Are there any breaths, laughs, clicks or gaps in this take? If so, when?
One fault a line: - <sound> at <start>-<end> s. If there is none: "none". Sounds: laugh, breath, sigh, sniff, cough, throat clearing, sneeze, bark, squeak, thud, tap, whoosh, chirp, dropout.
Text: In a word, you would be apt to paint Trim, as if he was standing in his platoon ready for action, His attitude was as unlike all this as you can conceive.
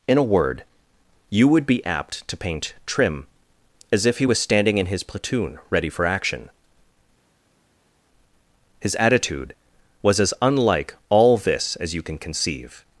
none